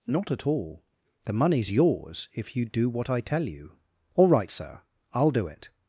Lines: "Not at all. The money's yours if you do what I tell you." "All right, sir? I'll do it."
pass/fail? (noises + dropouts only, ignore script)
pass